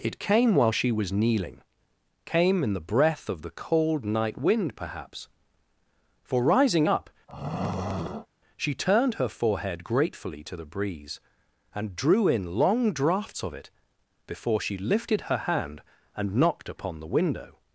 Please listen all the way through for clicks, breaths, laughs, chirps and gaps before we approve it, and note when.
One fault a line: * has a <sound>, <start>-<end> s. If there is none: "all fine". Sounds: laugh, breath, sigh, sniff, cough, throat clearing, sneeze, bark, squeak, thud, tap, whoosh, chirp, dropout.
* has a throat clearing, 7.3-8.3 s